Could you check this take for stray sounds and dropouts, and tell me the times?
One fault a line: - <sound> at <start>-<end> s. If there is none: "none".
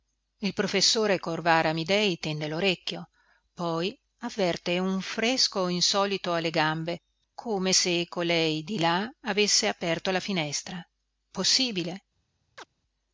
- chirp at 12.6-12.7 s